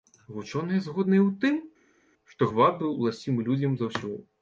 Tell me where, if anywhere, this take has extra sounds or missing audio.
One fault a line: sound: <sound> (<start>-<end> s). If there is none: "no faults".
no faults